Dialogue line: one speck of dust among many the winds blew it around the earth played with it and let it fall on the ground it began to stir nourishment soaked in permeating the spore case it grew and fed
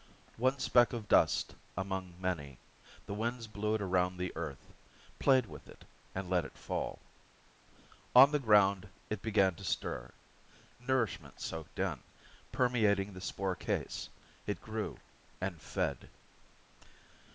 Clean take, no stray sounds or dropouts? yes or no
yes